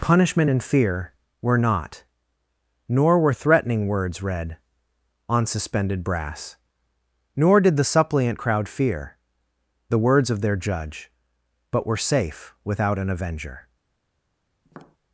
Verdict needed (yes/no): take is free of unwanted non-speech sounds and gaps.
no